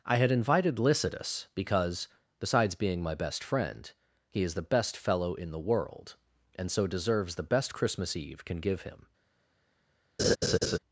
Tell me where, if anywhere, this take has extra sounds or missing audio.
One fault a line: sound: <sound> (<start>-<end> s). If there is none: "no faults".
sound: laugh (10.2-10.8 s)